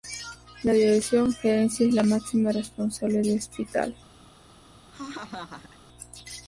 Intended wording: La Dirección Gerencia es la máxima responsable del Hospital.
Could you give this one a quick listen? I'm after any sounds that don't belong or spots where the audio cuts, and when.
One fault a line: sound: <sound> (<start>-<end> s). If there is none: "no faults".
sound: laugh (4.9-5.8 s)